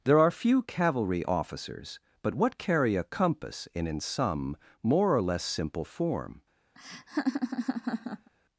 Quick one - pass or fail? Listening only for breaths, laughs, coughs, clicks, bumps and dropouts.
fail